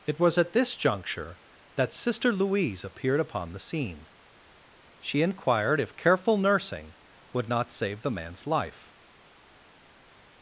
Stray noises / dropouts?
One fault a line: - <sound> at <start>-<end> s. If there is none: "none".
none